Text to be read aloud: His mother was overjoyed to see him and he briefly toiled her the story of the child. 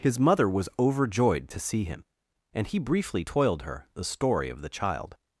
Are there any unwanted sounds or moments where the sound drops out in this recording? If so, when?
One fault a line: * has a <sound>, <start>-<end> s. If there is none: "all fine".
all fine